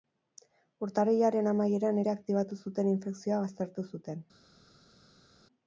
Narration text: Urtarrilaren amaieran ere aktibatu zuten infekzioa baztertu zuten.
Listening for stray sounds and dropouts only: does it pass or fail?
pass